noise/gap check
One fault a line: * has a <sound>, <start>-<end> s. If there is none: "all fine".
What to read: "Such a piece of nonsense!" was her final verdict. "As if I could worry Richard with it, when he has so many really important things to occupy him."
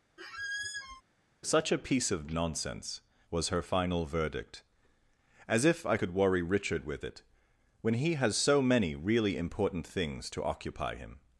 * has a squeak, 0.2-1.0 s